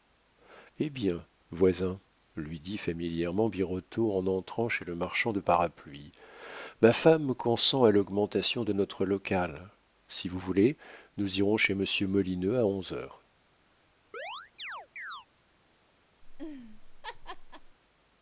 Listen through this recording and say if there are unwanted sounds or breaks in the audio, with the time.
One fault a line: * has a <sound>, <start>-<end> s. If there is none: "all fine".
* has a chirp, 14.1-15.3 s
* has a laugh, 16.2-17.8 s